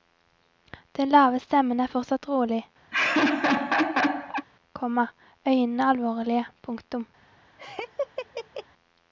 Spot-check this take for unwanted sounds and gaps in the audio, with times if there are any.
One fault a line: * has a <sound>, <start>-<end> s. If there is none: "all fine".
* has a laugh, 2.9-4.5 s
* has a laugh, 7.6-8.7 s